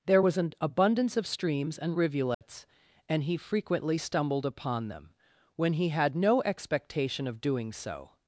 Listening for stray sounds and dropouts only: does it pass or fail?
fail